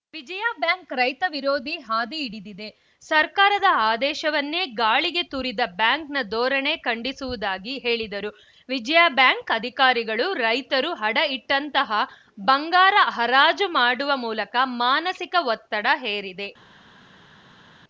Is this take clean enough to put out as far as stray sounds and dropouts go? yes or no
yes